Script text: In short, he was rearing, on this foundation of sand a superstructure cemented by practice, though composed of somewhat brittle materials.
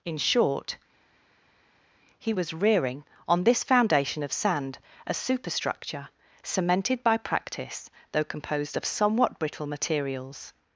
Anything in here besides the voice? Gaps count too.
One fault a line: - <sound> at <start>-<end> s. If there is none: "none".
none